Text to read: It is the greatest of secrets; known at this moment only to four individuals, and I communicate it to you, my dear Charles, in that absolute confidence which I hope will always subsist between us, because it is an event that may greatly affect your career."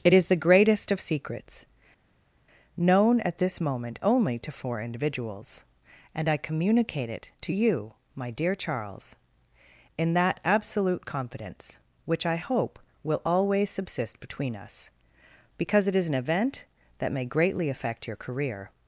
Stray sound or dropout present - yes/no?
no